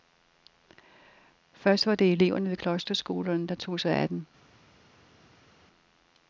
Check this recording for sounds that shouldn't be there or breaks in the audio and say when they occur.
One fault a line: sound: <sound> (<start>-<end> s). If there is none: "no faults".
no faults